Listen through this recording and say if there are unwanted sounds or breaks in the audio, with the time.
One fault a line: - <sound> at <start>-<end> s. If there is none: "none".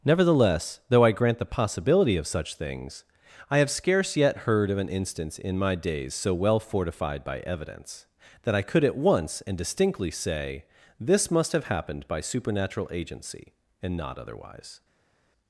none